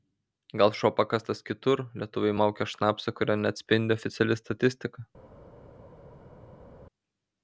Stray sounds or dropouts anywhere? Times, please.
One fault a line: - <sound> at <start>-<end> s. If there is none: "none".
none